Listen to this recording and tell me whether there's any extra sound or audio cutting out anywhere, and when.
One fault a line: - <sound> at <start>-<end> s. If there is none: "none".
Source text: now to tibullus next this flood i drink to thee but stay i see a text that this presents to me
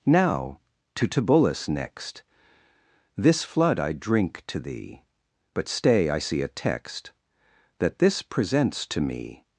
none